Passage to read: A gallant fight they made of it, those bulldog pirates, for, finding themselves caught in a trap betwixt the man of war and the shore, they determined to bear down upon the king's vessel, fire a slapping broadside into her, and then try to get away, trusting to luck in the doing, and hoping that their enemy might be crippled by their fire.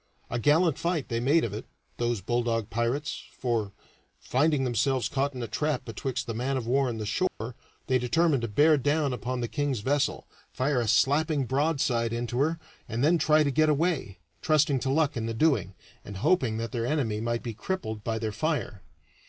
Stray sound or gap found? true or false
true